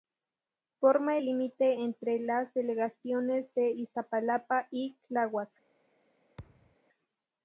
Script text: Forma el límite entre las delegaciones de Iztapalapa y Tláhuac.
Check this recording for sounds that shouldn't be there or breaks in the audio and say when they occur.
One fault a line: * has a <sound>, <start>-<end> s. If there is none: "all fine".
* has a thud, 6.4-6.8 s